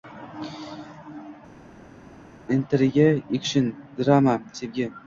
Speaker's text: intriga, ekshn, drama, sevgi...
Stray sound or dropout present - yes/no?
no